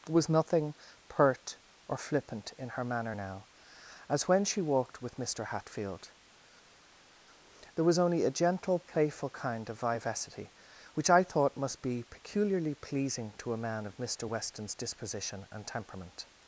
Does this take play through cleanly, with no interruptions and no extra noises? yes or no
yes